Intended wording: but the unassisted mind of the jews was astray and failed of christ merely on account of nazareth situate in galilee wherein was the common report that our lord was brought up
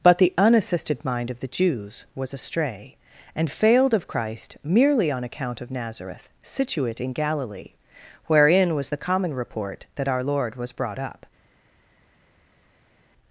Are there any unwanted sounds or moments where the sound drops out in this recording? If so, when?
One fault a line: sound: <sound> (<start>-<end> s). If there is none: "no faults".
no faults